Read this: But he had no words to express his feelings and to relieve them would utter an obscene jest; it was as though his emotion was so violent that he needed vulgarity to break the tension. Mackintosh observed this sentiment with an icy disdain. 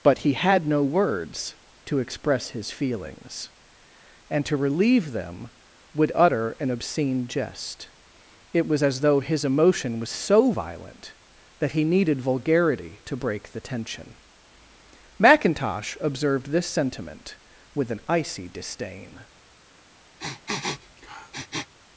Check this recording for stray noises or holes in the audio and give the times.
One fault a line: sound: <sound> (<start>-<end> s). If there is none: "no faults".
sound: sniff (20.2-21.7 s)